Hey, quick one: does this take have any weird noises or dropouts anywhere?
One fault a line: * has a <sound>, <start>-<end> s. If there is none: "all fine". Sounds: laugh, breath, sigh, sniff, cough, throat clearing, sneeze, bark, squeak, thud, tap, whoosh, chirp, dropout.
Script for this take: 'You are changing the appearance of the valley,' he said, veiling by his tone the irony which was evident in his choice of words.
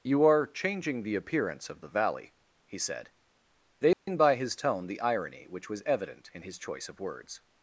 * has a dropout, 3.9-4.1 s